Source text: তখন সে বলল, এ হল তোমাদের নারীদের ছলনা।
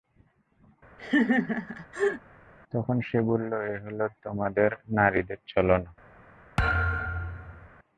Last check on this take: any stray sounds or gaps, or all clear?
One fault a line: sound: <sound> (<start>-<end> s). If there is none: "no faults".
sound: laugh (1.0-2.2 s)
sound: thud (6.6-7.7 s)